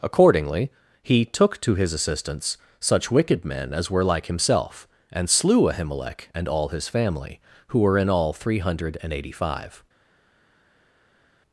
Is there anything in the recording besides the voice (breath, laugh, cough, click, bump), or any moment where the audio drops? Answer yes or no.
no